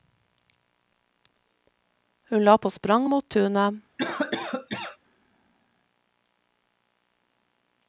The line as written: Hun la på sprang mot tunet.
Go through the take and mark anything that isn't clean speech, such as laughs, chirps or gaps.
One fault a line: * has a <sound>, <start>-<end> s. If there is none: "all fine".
* has a cough, 4.0-5.0 s